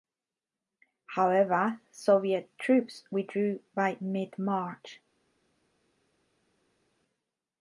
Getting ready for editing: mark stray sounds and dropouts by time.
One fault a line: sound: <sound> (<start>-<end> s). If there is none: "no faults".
no faults